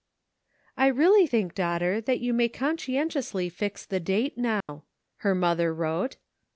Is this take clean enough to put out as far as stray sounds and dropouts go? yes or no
no